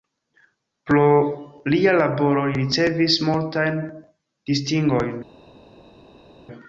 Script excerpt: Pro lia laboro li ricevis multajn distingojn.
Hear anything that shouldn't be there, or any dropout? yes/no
no